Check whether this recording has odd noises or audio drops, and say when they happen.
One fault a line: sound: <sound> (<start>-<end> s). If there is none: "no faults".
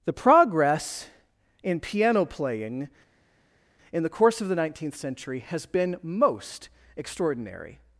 no faults